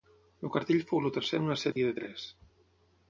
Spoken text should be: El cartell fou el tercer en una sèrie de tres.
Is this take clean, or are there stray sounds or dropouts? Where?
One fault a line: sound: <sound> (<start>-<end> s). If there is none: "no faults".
sound: dropout (1.7-1.8 s)